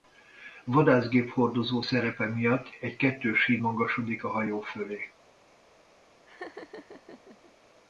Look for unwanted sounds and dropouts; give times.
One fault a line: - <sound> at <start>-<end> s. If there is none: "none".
- laugh at 6.3-7.5 s